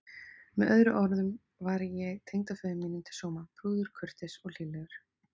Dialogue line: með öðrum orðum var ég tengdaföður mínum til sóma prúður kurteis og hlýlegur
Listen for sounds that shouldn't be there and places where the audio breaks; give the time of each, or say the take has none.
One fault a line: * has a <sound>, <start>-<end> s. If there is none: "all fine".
all fine